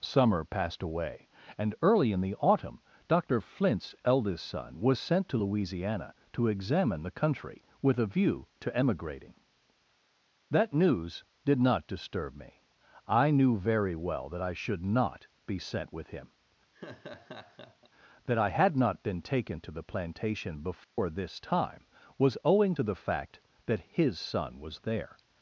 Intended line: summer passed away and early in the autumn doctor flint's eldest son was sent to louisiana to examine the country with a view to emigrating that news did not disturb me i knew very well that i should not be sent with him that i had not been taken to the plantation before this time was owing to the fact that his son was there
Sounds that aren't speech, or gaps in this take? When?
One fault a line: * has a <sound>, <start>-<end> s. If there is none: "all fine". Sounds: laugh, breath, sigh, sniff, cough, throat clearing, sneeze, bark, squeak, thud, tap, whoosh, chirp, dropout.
* has a laugh, 16.7-17.9 s
* has a dropout, 20.8-21.0 s